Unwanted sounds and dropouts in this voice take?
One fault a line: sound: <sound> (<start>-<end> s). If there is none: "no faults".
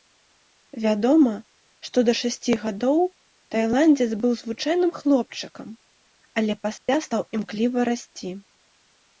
sound: dropout (6.8-6.9 s)